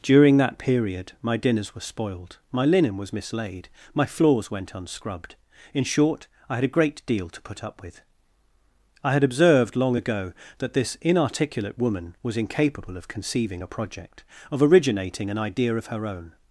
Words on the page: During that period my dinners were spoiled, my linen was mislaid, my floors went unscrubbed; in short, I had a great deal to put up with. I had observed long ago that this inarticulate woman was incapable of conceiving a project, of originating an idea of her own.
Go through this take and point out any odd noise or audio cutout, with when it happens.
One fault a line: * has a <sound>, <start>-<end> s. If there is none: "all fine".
all fine